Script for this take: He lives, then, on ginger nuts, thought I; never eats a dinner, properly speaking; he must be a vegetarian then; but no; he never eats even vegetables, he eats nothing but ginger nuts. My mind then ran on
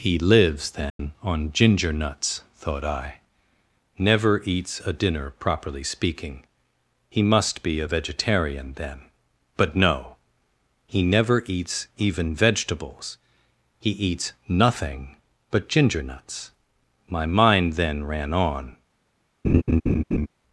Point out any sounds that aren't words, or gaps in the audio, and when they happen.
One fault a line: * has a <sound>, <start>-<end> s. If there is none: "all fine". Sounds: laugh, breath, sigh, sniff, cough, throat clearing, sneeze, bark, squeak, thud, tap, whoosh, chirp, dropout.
* has a dropout, 0.9-1.0 s
* has a laugh, 19.4-20.3 s